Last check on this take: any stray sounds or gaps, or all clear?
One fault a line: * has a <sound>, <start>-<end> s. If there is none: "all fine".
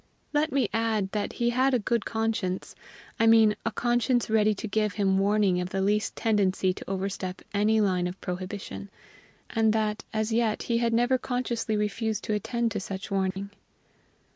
* has a dropout, 13.3-13.4 s